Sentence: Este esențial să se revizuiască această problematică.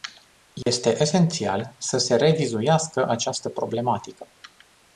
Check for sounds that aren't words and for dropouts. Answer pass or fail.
fail